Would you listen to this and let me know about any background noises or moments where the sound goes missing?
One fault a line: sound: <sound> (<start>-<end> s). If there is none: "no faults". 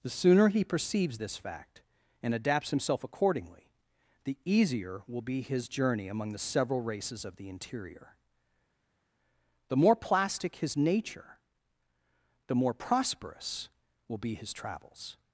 no faults